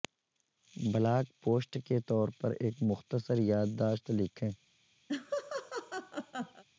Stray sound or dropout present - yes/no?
yes